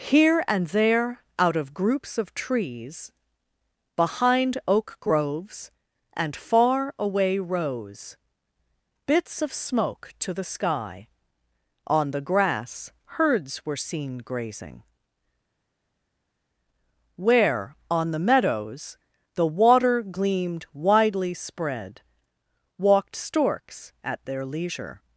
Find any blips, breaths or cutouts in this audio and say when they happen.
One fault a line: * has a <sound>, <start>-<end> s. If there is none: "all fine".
all fine